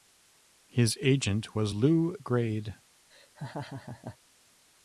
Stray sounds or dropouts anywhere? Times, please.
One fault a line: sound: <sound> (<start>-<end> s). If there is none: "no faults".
sound: laugh (3.1-4.2 s)